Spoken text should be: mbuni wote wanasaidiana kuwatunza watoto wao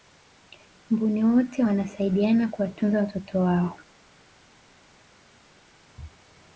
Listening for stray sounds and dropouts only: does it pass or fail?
pass